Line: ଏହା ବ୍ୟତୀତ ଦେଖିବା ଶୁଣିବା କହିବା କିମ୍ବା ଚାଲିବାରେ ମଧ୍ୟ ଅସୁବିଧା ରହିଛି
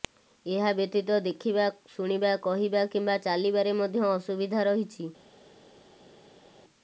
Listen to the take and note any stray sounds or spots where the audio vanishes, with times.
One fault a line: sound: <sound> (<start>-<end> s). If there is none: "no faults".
no faults